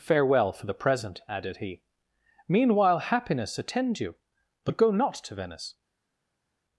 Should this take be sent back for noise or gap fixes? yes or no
no